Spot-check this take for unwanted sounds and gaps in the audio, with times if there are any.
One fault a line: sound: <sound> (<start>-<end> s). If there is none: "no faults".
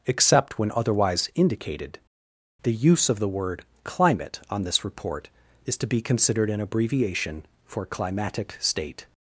no faults